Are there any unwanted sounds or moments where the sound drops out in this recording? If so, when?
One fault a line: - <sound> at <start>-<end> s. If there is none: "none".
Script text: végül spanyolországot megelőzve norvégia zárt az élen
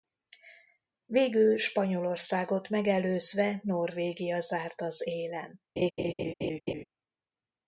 - laugh at 5.8-6.8 s